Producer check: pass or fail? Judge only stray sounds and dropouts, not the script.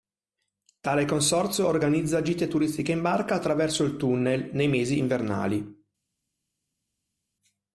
pass